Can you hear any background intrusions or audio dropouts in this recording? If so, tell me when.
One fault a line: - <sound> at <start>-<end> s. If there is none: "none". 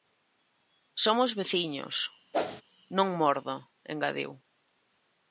- whoosh at 2.3-2.6 s